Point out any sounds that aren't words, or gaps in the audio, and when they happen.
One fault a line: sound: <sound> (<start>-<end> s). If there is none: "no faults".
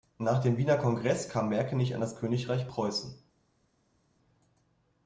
no faults